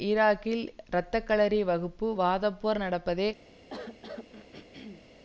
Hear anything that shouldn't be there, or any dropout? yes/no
yes